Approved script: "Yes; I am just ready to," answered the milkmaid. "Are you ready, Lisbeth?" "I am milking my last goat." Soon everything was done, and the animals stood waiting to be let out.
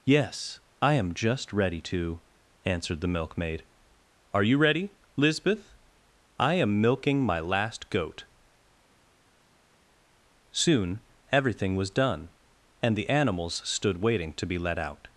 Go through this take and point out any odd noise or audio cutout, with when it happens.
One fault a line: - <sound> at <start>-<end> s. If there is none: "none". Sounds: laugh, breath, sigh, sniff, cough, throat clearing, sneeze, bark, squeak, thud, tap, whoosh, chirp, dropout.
none